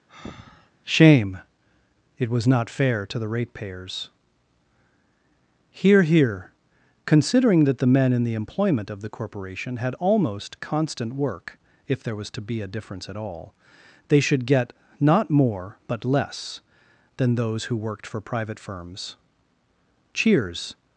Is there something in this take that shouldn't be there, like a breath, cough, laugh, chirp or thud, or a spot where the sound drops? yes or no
yes